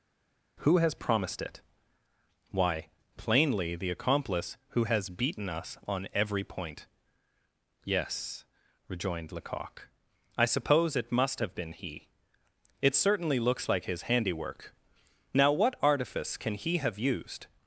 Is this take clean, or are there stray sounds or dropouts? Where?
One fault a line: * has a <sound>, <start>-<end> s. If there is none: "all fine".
all fine